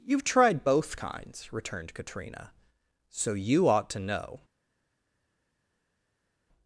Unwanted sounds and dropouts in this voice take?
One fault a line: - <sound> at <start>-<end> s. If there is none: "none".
none